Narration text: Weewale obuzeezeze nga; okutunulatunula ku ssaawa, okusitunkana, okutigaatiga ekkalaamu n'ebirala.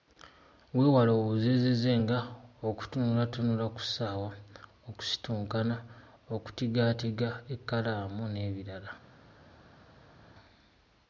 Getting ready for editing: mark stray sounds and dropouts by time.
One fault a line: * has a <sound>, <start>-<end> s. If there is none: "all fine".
all fine